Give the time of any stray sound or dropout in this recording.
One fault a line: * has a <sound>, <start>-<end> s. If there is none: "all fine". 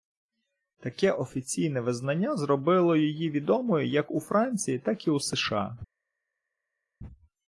all fine